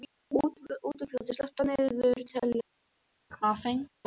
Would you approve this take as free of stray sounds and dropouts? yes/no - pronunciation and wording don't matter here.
no